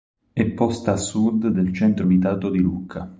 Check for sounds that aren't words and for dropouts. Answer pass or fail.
pass